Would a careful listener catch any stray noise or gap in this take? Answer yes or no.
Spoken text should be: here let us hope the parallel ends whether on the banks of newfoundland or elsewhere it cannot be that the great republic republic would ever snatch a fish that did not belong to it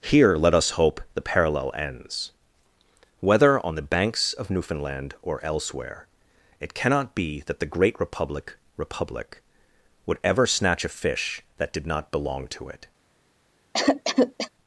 yes